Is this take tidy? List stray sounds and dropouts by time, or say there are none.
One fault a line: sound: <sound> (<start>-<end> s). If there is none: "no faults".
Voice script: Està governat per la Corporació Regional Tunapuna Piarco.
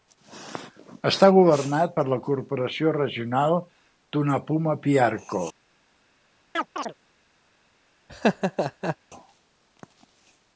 sound: chirp (6.5-6.9 s)
sound: laugh (8.1-9.0 s)